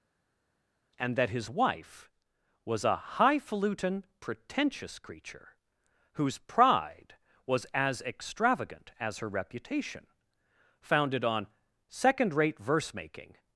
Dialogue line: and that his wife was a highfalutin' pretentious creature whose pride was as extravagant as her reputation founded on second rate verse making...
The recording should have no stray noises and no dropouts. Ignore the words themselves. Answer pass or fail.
pass